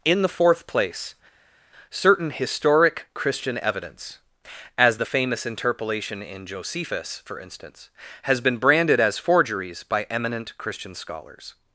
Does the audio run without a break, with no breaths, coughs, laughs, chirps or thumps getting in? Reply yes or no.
yes